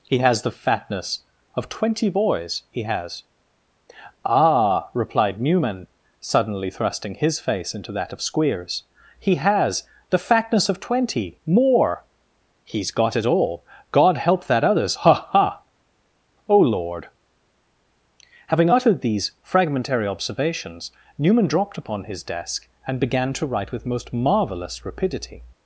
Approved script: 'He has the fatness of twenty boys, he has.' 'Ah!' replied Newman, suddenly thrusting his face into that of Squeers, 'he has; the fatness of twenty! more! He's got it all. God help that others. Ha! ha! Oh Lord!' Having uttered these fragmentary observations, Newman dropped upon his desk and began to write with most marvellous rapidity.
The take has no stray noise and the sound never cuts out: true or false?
true